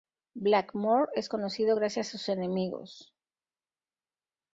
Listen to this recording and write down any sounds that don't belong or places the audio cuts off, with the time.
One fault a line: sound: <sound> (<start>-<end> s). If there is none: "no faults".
no faults